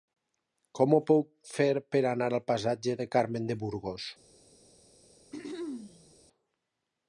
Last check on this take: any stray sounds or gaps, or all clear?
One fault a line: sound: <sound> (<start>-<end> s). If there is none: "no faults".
sound: throat clearing (5.3-6.2 s)